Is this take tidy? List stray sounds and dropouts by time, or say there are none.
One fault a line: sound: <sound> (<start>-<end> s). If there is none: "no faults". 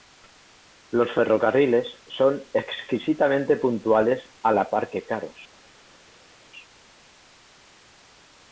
no faults